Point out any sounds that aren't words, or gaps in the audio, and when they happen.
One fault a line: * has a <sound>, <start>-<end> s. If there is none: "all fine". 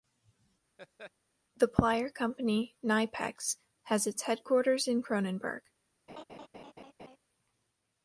* has a laugh, 0.8-1.1 s
* has a laugh, 6.1-7.2 s